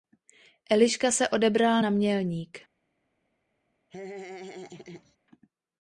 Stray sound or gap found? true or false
true